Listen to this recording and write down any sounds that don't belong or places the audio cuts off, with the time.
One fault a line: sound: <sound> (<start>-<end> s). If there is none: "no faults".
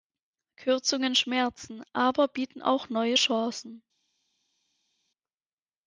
no faults